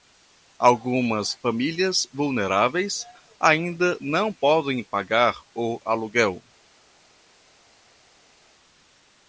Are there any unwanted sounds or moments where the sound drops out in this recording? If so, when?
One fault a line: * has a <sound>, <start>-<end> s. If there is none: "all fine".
all fine